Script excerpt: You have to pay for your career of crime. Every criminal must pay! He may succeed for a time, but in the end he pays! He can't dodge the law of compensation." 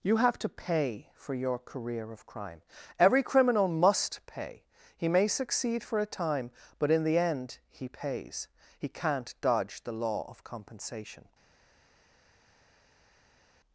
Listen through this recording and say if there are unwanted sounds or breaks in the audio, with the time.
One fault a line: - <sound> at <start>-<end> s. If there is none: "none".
none